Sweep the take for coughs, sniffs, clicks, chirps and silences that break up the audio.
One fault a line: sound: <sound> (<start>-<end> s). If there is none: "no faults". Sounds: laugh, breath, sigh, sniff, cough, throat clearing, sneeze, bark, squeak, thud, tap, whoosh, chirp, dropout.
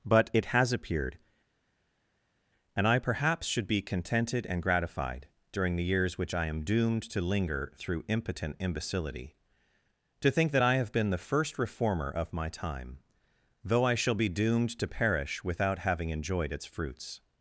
no faults